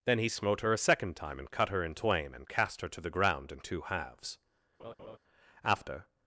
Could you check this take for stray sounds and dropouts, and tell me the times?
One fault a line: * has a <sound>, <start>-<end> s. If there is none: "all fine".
* has a laugh, 4.8-5.2 s